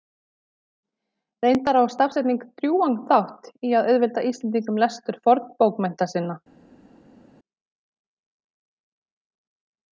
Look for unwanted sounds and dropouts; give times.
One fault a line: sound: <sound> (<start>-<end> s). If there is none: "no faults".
no faults